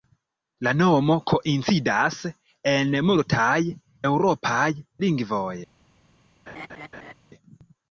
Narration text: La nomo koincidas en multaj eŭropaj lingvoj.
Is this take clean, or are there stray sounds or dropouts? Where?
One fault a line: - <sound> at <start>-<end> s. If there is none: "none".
- laugh at 6.5-7.1 s